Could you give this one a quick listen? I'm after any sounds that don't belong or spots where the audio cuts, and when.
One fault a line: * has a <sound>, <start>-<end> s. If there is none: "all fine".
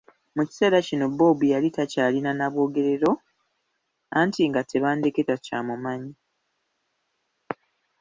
all fine